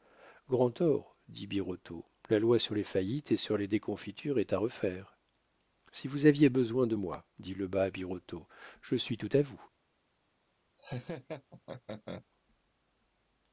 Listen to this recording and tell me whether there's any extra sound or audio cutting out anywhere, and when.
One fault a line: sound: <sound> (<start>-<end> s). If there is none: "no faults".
sound: laugh (10.8-12.3 s)